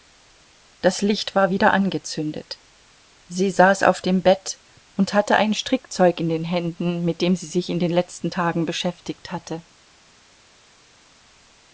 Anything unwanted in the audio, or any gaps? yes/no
no